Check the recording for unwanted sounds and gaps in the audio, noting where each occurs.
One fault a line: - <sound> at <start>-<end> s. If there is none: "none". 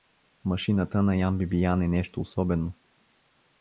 none